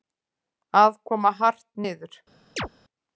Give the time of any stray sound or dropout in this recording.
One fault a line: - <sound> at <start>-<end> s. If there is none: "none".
- chirp at 2.6-2.7 s